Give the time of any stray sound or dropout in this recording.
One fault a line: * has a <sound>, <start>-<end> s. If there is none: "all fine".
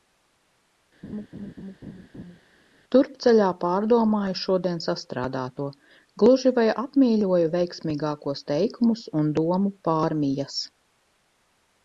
* has a laugh, 1.0-2.4 s